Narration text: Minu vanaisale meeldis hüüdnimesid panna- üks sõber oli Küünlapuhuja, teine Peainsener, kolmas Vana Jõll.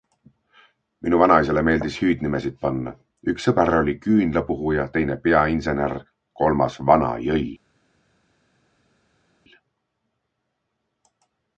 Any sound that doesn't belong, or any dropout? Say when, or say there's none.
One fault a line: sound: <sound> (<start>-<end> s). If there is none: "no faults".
no faults